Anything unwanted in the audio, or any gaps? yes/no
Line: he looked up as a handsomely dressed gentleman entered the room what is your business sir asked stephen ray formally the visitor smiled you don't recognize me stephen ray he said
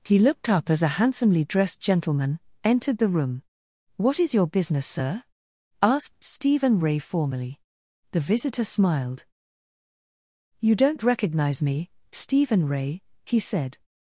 no